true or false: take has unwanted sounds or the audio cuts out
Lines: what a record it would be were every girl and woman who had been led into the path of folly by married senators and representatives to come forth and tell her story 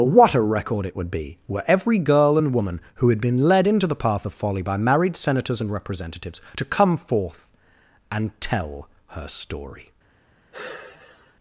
true